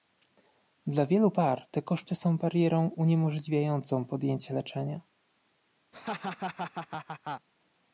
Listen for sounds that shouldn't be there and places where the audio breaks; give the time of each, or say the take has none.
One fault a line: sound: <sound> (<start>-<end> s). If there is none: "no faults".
sound: laugh (5.9-7.5 s)